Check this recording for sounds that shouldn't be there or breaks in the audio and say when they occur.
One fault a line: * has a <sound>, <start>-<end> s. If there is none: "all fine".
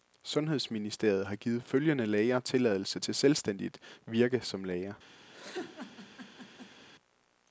* has a laugh, 5.3-6.9 s